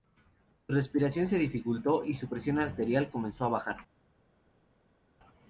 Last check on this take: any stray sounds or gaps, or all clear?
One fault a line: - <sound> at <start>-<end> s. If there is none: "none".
none